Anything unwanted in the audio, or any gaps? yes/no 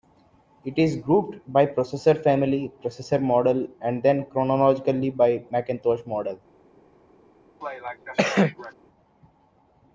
yes